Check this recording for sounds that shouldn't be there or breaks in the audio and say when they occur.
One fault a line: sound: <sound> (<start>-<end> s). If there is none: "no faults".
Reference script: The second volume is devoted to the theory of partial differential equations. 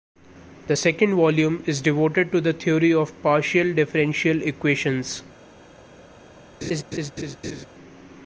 sound: laugh (6.6-7.7 s)